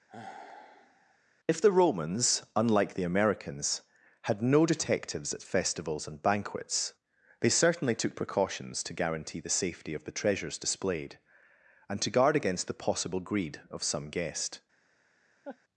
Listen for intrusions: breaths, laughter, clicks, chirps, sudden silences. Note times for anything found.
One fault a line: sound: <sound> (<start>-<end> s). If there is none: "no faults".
sound: sigh (0.1-1.2 s)
sound: laugh (15.4-15.6 s)